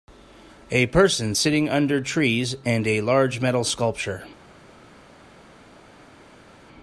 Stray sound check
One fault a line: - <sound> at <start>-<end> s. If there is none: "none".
none